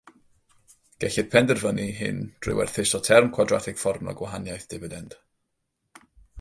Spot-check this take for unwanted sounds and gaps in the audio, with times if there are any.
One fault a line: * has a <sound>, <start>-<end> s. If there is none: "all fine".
all fine